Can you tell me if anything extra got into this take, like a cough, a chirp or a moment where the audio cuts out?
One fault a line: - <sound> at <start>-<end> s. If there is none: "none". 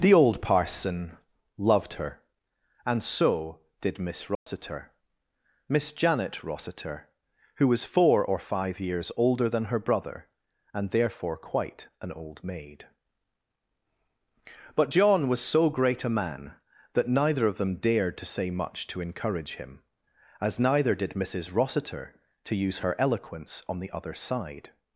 - dropout at 4.4-4.5 s